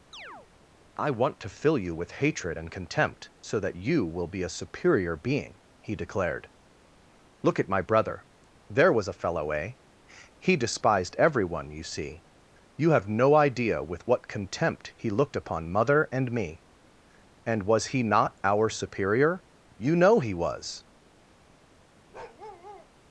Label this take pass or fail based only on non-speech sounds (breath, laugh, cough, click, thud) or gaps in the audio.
fail